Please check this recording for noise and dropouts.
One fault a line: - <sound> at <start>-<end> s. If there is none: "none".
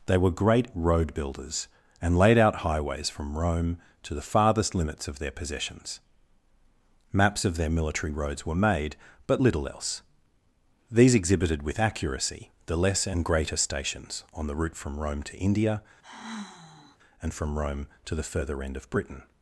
- sigh at 16.0-17.0 s